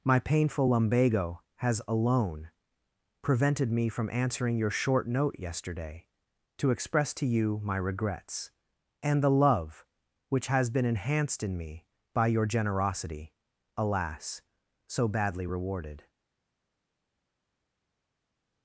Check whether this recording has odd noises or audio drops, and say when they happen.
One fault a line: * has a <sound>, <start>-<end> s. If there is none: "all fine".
all fine